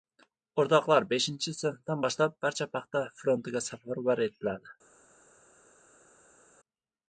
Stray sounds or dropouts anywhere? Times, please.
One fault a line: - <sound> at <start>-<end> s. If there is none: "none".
none